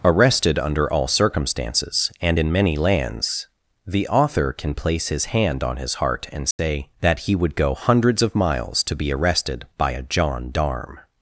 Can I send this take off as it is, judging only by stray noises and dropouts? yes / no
no